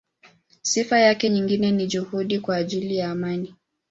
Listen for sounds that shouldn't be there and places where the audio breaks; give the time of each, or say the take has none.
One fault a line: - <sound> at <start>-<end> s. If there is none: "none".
none